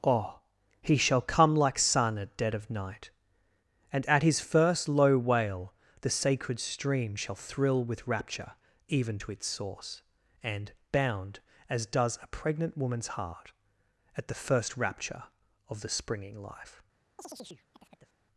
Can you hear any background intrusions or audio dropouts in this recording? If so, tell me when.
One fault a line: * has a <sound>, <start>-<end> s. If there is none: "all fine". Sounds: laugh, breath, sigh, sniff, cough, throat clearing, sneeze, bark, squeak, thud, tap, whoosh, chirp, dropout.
* has a chirp, 17.2-18.2 s